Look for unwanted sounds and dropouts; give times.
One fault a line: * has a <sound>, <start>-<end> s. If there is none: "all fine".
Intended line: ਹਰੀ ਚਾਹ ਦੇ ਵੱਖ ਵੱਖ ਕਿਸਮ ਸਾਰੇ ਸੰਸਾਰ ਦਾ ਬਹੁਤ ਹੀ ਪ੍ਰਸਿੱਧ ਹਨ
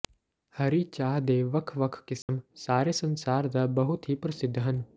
* has a dropout, 2.2-2.3 s